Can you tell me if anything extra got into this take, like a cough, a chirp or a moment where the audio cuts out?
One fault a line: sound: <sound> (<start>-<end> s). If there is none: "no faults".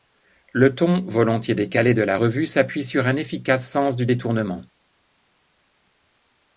no faults